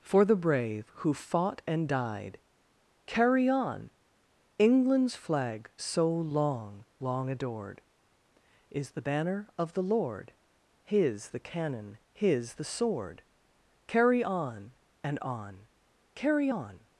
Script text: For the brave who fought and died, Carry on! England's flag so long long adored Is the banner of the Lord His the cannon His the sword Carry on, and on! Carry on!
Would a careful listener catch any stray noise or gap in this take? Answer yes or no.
no